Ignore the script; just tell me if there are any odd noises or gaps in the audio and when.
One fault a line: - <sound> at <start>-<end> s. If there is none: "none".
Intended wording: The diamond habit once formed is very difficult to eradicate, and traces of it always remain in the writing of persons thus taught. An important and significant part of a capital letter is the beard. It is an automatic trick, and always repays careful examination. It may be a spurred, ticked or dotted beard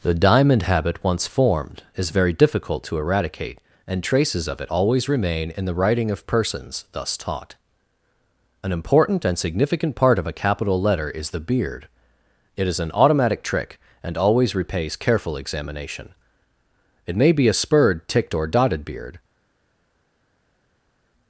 none